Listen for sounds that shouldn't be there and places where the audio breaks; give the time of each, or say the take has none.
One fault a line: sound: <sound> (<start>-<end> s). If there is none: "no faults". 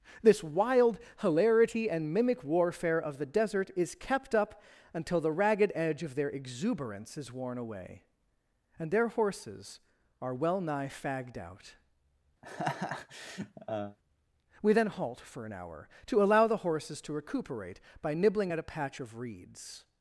sound: laugh (12.4-14.0 s)